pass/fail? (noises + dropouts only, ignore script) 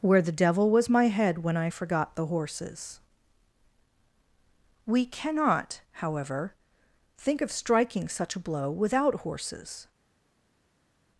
pass